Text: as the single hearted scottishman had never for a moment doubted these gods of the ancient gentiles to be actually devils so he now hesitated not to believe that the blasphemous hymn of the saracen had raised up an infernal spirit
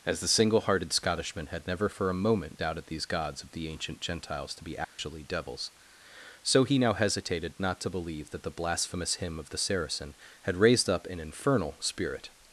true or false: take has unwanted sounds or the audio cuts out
true